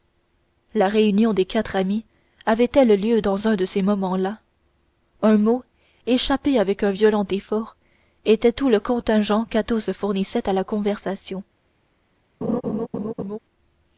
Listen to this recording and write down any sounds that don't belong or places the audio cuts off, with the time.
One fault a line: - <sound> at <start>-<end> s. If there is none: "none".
- laugh at 12.4-13.4 s